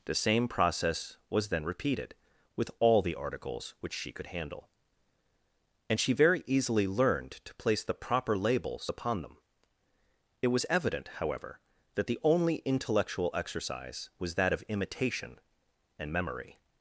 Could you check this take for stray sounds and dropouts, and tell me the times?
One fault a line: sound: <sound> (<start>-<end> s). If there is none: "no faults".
no faults